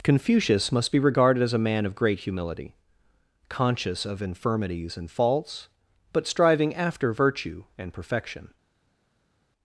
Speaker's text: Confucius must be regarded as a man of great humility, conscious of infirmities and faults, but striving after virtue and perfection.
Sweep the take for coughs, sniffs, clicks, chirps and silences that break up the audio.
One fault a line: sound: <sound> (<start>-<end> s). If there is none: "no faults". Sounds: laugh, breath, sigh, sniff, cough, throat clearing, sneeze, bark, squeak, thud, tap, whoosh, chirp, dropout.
no faults